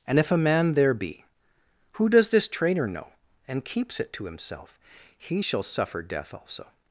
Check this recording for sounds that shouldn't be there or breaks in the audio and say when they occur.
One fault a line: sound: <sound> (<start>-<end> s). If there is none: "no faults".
no faults